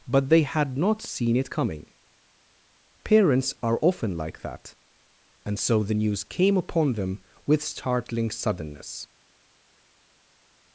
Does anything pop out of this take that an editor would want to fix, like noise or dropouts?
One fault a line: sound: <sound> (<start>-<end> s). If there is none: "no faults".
no faults